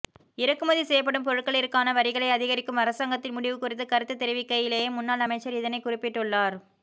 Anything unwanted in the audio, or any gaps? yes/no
no